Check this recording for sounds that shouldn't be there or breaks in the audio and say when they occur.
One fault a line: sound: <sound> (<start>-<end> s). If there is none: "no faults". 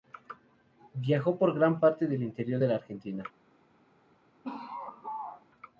sound: laugh (4.4-5.5 s)